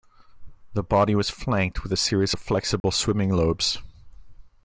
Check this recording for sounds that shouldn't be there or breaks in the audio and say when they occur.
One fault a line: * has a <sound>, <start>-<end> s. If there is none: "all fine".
* has a dropout, 2.8-2.8 s